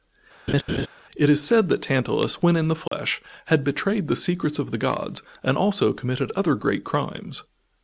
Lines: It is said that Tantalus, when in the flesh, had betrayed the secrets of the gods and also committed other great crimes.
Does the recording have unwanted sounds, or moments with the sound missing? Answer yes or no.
yes